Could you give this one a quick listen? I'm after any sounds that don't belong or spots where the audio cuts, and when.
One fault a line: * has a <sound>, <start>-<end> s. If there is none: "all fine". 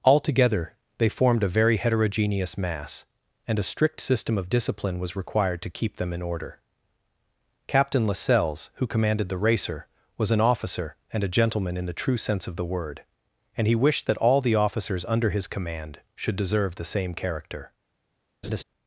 * has a laugh, 18.4-18.6 s